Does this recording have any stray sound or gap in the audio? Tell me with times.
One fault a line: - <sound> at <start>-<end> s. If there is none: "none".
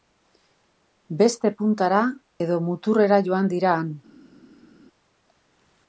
none